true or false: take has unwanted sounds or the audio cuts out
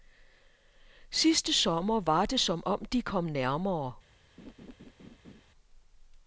true